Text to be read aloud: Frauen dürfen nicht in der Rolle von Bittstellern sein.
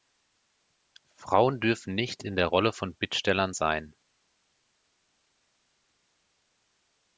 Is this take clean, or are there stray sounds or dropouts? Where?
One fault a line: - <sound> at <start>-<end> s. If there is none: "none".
none